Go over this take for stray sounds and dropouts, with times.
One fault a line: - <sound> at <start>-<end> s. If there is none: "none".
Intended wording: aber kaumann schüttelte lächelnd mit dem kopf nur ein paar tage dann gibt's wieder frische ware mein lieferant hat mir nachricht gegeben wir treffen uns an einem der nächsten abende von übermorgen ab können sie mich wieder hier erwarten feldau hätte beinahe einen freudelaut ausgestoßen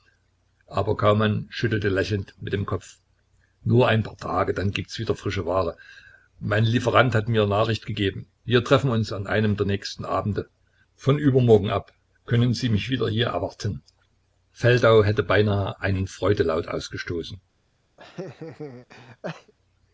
- laugh at 18.0-19.5 s